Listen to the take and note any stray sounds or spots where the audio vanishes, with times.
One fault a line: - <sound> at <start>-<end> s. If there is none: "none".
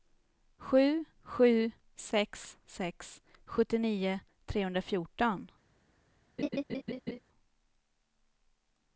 - laugh at 6.4-7.2 s